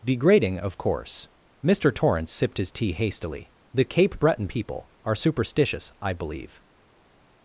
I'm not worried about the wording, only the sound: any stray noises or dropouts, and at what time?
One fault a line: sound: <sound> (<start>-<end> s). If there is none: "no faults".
no faults